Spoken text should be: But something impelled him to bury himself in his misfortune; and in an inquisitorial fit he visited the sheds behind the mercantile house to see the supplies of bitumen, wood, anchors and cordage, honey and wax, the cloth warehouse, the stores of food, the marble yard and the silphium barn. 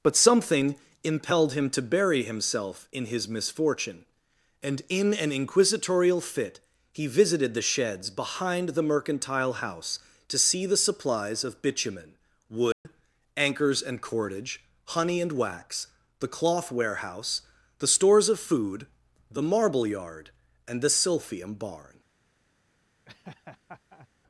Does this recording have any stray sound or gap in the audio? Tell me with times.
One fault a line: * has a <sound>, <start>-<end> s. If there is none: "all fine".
* has a dropout, 12.7-12.9 s
* has a laugh, 23.1-24.1 s